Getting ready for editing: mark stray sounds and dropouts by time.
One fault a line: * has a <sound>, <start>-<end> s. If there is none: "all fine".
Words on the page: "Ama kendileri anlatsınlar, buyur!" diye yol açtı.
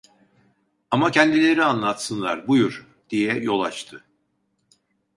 all fine